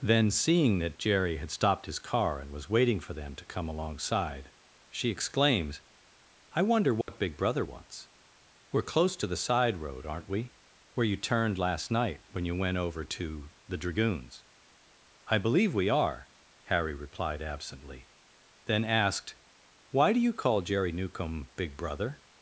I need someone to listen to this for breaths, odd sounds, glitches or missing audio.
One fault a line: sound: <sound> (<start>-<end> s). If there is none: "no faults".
sound: dropout (7.0-7.1 s)